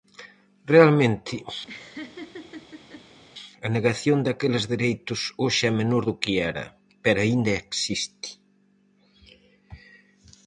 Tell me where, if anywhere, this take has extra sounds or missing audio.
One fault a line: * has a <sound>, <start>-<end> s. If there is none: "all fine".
* has a laugh, 1.7-3.2 s